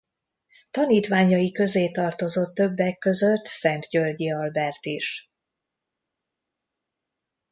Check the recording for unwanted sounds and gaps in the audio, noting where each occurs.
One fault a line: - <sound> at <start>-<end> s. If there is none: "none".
none